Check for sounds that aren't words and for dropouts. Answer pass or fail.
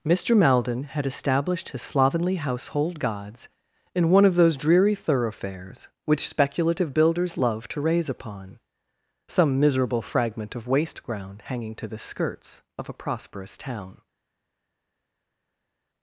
pass